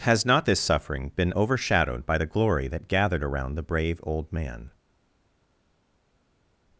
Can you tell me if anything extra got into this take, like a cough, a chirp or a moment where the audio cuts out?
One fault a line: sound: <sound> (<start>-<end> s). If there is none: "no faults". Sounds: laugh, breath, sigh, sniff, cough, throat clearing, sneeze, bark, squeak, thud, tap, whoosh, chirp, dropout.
no faults